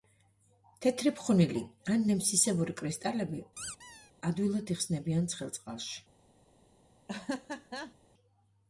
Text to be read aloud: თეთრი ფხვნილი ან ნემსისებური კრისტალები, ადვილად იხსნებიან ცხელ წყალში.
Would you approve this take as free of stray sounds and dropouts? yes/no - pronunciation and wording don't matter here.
no